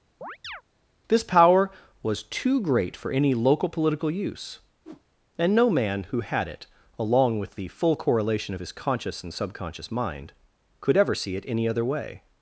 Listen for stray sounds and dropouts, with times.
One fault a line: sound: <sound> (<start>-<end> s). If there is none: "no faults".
sound: chirp (0.2-0.6 s)
sound: whoosh (4.8-5.0 s)